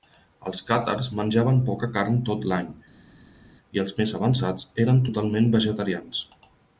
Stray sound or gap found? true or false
false